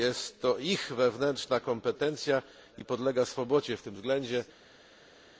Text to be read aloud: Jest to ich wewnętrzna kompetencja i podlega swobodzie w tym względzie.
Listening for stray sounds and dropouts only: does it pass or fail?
pass